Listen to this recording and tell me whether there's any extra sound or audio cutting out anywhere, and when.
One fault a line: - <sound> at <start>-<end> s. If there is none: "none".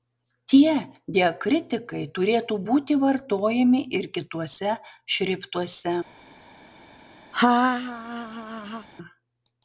- laugh at 7.3-8.9 s